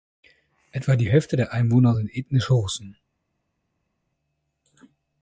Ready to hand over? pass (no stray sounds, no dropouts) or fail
pass